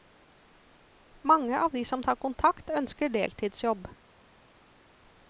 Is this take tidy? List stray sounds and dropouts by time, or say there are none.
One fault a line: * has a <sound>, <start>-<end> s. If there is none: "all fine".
all fine